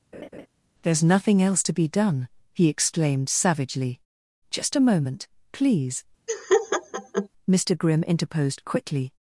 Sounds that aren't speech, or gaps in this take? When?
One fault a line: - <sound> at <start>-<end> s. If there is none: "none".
- laugh at 0.1-0.5 s
- laugh at 6.3-7.3 s